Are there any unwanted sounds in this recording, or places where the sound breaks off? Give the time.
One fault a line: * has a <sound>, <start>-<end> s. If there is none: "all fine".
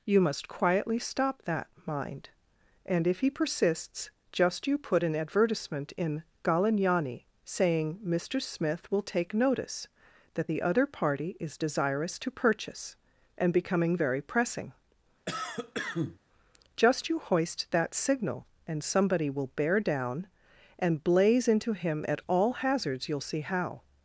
* has a cough, 15.3-16.2 s